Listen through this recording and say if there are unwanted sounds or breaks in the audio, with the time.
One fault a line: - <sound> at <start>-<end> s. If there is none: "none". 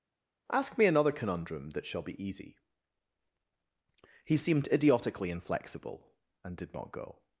none